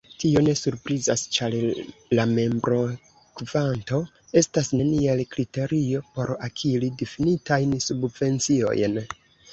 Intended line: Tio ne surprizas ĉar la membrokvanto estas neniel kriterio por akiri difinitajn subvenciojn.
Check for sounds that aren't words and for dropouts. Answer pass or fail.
pass